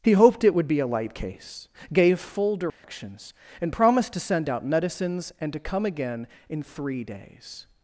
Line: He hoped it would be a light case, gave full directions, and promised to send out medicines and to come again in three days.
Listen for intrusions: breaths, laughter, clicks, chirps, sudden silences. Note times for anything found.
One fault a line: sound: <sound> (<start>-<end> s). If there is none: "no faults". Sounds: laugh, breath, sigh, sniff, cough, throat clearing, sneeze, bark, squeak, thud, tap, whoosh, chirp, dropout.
sound: dropout (2.7-2.8 s)